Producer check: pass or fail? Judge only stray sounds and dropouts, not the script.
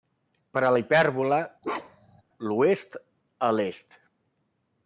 fail